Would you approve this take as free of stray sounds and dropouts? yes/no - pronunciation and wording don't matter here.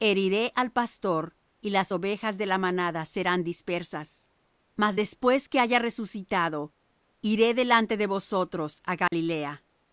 no